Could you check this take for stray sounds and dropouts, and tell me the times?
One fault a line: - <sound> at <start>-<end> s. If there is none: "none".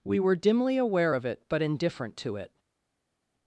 none